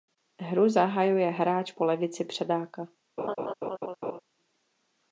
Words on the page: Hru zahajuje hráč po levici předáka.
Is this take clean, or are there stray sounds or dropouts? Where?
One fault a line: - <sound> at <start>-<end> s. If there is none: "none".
- laugh at 3.2-4.2 s